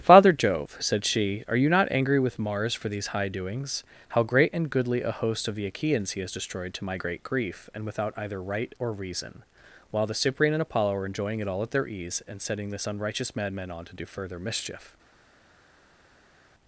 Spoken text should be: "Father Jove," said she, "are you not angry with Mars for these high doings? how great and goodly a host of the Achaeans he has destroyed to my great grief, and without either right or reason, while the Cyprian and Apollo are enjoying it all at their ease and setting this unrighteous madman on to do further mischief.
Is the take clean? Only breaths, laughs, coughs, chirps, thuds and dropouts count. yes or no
yes